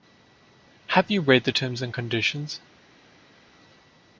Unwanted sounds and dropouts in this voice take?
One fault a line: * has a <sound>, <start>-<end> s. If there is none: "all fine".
all fine